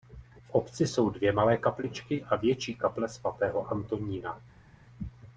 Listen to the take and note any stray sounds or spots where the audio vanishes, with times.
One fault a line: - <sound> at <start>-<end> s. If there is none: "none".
none